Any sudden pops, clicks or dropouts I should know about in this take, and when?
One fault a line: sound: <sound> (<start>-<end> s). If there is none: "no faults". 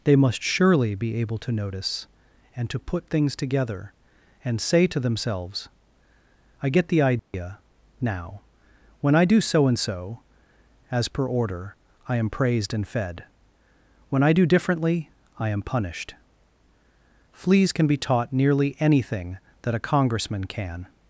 sound: dropout (7.2-7.3 s)